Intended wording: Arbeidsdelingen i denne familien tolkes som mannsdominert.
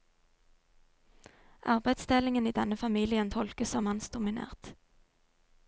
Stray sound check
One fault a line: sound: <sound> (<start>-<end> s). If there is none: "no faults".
no faults